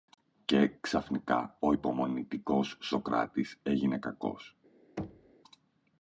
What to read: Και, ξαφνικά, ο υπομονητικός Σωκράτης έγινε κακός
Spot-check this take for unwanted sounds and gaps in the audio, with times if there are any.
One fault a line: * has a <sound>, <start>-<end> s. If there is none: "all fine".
* has a thud, 5.0-5.3 s